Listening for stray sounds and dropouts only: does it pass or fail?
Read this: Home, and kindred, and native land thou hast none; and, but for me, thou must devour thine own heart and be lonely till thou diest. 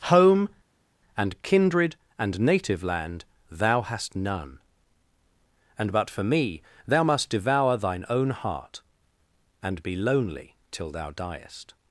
pass